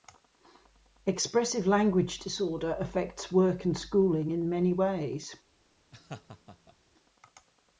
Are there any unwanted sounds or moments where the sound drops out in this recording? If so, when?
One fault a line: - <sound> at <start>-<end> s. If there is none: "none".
- laugh at 5.9-6.8 s